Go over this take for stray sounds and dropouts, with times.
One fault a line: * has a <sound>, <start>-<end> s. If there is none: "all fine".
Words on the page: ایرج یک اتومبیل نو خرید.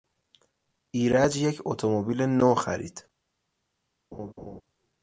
* has a laugh, 4.1-4.6 s